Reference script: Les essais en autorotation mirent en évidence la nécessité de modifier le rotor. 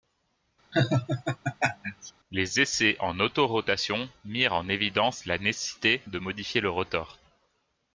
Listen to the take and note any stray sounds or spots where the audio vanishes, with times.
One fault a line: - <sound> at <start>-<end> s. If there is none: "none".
- laugh at 0.7-2.1 s